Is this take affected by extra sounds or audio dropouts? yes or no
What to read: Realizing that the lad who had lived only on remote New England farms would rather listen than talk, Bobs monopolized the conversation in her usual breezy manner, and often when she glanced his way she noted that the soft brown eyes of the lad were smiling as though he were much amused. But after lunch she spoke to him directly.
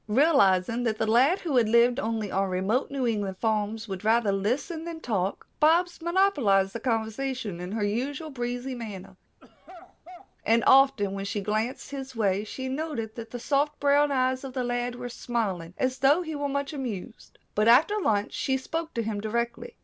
yes